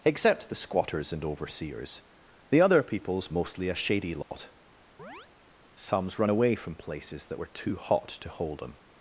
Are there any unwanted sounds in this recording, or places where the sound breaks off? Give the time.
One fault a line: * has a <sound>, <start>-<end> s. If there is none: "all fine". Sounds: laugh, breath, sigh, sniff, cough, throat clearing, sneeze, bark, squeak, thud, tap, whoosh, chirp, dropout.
* has a dropout, 4.2-4.3 s
* has a chirp, 5.0-5.3 s